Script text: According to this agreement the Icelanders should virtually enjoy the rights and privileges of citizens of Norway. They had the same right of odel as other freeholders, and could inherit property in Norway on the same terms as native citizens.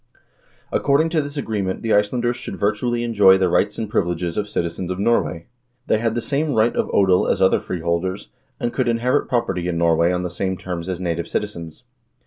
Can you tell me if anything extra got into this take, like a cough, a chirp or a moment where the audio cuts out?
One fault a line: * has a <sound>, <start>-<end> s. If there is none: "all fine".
all fine